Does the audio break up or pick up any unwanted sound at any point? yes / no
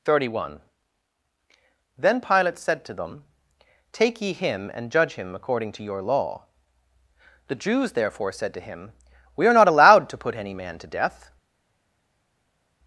no